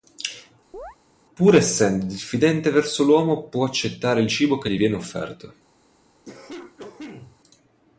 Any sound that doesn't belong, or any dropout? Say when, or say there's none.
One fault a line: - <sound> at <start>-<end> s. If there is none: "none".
- chirp at 0.7-1.0 s
- cough at 6.3-7.4 s